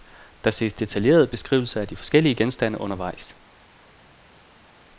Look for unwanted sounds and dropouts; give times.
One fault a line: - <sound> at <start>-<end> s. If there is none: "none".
none